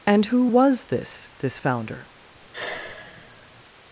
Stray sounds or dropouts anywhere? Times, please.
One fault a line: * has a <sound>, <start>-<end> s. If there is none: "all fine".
* has a sigh, 2.3-3.6 s